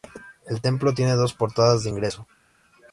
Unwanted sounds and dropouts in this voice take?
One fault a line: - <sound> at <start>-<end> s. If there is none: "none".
none